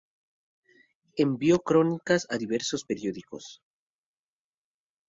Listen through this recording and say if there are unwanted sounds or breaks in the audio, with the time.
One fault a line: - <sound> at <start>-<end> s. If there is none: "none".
none